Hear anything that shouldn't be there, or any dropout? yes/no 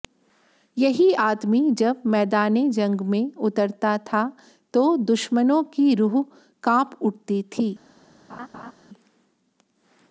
yes